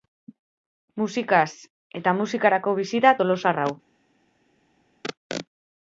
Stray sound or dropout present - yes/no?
no